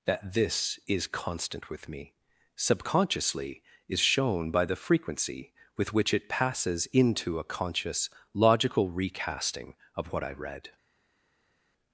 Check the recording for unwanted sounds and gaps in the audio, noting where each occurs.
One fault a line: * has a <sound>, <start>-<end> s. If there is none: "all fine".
all fine